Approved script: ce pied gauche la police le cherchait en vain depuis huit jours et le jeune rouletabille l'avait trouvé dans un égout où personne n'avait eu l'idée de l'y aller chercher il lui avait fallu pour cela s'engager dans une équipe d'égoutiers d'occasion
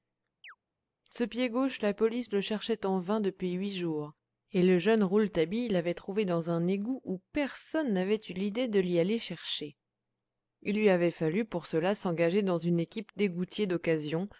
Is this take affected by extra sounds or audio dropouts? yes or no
yes